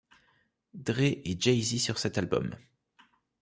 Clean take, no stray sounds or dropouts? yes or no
yes